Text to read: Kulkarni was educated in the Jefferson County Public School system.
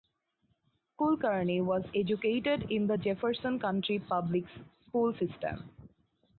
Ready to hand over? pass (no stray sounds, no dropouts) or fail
pass